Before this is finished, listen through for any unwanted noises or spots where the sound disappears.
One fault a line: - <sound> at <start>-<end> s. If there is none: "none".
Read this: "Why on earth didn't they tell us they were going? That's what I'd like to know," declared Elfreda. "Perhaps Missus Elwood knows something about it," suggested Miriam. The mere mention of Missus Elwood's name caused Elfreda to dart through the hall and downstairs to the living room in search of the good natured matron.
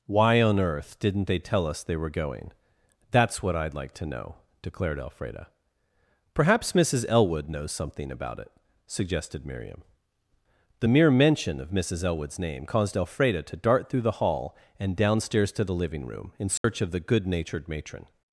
- dropout at 16.6-16.6 s